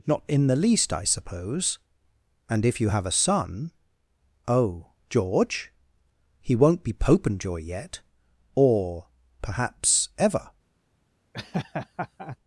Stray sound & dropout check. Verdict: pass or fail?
fail